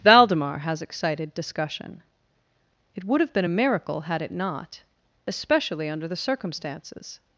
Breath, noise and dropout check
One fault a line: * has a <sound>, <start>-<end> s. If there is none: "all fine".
all fine